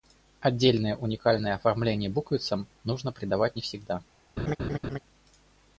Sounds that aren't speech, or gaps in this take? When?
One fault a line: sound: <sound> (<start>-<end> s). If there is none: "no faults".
sound: laugh (4.4-5.0 s)